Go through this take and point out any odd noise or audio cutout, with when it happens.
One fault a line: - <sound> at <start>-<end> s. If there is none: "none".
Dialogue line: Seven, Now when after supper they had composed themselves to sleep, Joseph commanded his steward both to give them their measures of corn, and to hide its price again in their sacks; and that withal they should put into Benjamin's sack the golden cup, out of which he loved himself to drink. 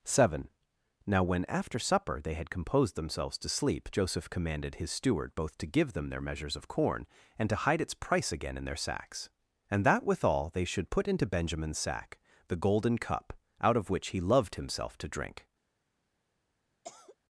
- cough at 16.8-17.2 s